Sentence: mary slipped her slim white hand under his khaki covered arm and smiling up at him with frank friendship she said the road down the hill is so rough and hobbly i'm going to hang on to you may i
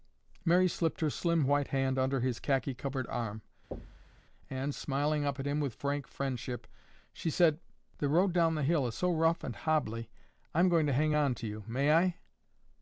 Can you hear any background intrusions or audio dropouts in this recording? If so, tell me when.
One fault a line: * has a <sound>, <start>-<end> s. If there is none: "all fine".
* has a thud, 3.7-4.2 s